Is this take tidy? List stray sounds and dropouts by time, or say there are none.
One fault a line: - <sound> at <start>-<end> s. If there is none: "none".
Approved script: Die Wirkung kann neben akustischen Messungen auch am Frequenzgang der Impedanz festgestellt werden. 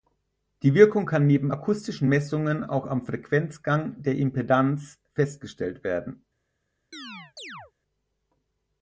- chirp at 6.9-7.7 s